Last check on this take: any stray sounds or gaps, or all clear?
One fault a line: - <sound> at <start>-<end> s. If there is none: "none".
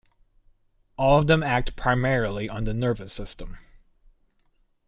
none